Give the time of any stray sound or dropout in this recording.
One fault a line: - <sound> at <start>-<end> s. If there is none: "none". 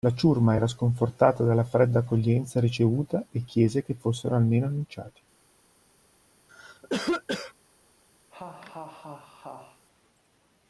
- cough at 6.5-7.5 s
- laugh at 8.3-9.9 s